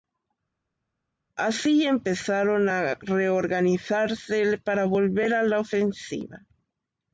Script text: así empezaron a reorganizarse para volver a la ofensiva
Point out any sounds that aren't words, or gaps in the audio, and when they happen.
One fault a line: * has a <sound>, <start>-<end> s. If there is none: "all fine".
all fine